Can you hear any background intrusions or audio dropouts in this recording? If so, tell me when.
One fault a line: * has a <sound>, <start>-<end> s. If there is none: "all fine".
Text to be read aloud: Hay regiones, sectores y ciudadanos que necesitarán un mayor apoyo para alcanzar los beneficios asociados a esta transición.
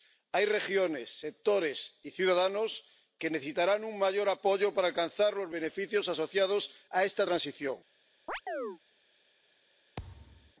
* has a chirp, 8.3-8.8 s
* has a thud, 10.0-10.5 s